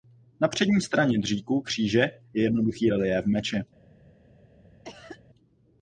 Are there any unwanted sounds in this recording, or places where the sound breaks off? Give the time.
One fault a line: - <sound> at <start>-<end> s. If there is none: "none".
- cough at 4.8-5.2 s